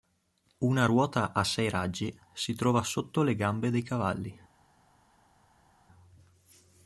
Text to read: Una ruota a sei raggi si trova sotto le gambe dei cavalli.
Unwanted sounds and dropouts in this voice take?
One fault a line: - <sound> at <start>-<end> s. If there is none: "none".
none